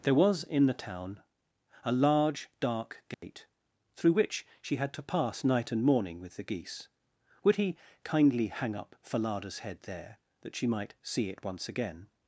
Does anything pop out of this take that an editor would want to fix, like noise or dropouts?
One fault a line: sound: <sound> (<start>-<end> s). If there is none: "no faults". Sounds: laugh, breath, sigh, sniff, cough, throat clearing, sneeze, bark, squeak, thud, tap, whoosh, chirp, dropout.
sound: dropout (3.1-3.2 s)